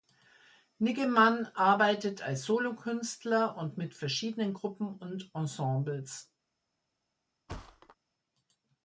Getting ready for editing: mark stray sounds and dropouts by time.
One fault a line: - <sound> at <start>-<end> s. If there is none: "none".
- thud at 7.5-8.0 s